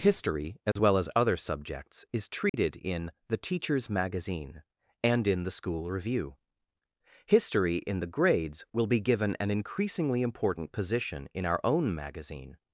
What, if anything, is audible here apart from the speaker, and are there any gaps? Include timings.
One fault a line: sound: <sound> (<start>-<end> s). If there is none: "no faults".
sound: dropout (0.7-0.8 s)
sound: dropout (2.5-2.5 s)